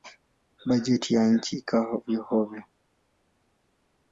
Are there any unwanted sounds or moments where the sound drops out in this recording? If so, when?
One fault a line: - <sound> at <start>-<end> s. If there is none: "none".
none